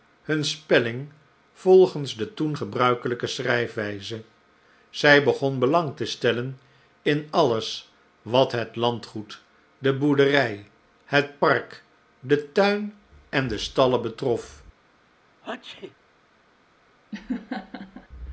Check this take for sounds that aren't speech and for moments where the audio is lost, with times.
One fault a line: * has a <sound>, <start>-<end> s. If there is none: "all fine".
* has a sneeze, 15.4-16.0 s
* has a laugh, 17.1-18.1 s